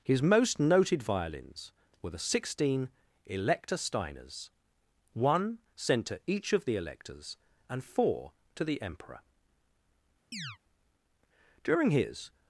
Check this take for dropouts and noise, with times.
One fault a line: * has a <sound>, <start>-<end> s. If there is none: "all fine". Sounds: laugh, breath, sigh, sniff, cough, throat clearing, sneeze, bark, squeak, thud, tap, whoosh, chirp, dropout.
* has a chirp, 10.3-10.6 s